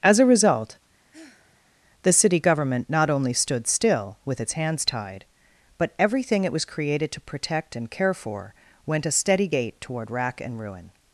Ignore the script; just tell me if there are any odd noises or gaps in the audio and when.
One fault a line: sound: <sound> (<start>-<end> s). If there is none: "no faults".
sound: sigh (1.1-1.7 s)